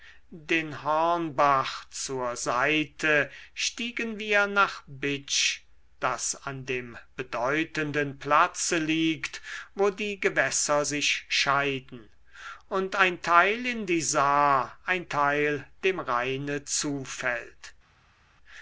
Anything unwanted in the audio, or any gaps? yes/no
no